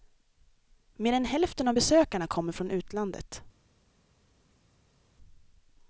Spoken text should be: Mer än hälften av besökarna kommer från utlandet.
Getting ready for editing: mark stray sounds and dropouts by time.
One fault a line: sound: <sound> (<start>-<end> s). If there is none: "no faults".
no faults